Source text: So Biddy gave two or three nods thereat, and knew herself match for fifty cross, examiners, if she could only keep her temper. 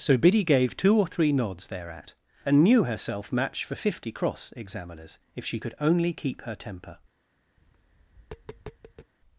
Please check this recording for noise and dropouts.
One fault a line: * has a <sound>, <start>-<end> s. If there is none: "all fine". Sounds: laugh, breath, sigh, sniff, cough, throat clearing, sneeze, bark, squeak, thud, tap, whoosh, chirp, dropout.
* has a tap, 7.6-9.1 s